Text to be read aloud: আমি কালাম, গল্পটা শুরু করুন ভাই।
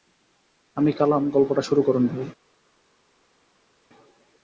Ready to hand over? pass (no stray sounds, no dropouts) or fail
pass